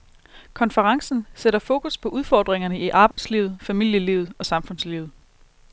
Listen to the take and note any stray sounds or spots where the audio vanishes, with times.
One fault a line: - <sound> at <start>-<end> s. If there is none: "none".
- dropout at 3.1-3.2 s